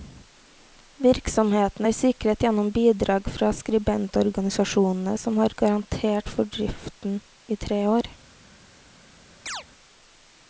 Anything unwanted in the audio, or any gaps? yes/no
yes